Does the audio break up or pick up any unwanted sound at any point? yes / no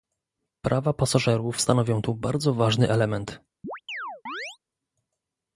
yes